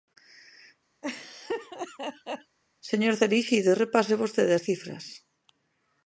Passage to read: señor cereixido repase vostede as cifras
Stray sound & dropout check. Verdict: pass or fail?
fail